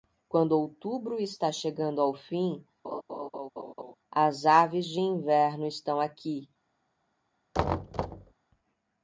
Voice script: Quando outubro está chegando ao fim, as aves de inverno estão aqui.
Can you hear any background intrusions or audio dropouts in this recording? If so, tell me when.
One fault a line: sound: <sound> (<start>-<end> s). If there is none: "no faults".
sound: laugh (2.8-3.9 s)
sound: thud (7.5-8.3 s)